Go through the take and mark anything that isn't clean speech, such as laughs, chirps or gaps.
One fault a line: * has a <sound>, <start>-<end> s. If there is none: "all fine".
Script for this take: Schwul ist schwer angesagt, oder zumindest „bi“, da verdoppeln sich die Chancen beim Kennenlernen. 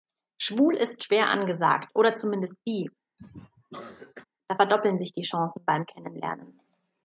* has a cough, 3.2-4.2 s